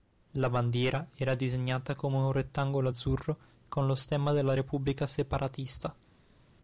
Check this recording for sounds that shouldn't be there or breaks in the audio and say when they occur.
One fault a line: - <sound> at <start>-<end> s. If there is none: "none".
none